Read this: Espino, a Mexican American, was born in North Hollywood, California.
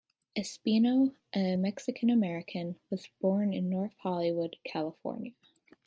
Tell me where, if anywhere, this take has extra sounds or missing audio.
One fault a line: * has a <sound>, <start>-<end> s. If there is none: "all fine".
all fine